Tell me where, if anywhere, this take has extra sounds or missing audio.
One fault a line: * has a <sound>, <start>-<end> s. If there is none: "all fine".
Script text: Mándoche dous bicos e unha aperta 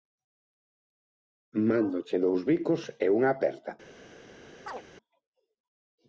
* has a chirp, 4.7-4.8 s